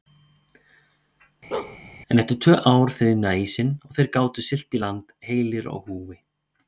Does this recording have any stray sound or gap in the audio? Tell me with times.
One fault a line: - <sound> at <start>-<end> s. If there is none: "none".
- bark at 1.5-1.8 s